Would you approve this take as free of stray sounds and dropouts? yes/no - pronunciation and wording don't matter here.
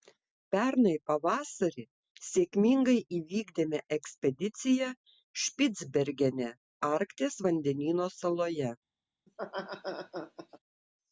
no